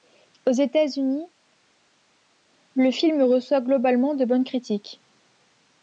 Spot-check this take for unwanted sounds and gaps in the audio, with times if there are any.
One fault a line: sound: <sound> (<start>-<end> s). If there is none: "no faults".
no faults